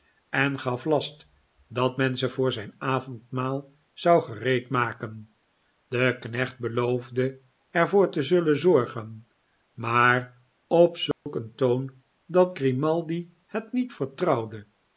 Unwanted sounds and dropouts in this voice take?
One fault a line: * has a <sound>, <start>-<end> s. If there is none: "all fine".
* has a dropout, 11.1-11.3 s